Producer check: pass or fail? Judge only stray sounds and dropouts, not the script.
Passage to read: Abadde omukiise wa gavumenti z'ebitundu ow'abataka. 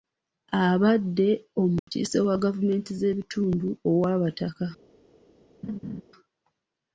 fail